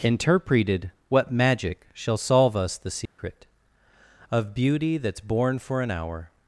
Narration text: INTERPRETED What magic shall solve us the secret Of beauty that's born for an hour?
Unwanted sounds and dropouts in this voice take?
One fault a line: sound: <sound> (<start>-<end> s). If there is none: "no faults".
sound: dropout (3.1-3.2 s)